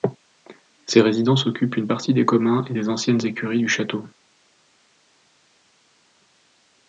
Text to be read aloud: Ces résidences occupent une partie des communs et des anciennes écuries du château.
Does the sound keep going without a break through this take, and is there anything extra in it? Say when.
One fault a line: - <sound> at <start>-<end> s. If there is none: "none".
none